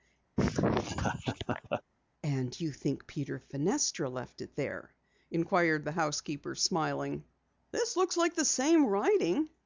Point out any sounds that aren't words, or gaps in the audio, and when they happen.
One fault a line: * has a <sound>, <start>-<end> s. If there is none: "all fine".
* has a laugh, 0.4-1.8 s